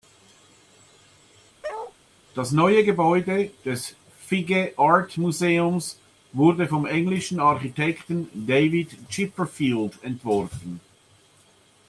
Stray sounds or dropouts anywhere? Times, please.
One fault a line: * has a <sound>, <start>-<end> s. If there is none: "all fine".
* has a bark, 1.6-1.9 s